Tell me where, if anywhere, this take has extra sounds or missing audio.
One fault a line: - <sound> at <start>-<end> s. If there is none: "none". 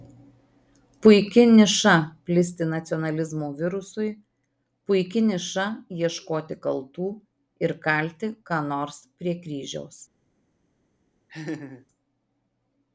- laugh at 11.3-11.9 s